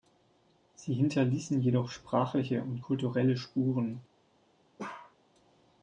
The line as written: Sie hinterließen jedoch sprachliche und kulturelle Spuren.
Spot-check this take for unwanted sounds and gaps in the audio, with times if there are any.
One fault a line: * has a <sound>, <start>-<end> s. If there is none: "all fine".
* has a bark, 4.8-5.2 s